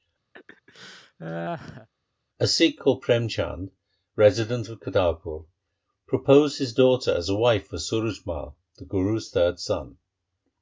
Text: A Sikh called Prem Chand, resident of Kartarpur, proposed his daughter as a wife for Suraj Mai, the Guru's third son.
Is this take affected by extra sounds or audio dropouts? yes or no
yes